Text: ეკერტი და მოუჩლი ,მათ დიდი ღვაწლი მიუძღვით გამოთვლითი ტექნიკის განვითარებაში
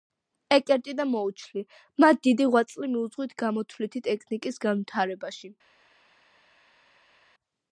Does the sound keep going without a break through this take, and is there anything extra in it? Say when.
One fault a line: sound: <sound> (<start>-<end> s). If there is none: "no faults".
no faults